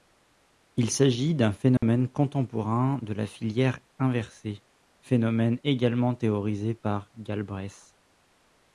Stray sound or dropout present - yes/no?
yes